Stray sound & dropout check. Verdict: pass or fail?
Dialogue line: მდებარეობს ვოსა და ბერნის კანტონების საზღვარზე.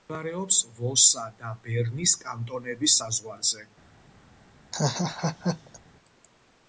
fail